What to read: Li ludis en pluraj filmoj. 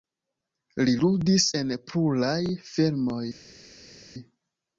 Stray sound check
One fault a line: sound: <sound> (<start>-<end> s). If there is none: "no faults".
no faults